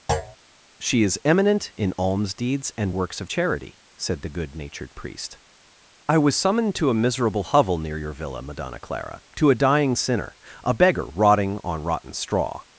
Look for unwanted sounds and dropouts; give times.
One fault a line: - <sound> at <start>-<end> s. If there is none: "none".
- thud at 0.1-0.4 s